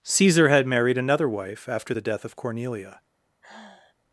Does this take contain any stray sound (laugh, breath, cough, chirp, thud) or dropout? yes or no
yes